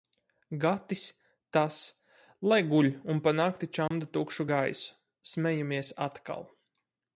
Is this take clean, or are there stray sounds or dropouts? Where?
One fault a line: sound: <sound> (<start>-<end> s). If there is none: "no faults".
sound: dropout (3.9-3.9 s)